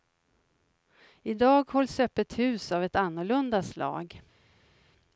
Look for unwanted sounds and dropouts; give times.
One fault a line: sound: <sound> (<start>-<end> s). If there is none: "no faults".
no faults